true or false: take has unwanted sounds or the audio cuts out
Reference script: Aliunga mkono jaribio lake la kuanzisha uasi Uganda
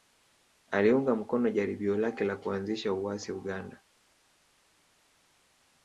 false